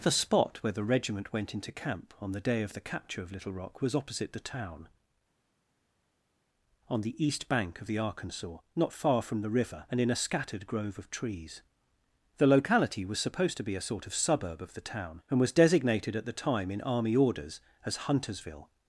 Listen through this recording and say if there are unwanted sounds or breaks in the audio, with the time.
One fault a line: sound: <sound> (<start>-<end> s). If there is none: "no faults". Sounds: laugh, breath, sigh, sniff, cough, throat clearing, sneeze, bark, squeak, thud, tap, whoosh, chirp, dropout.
no faults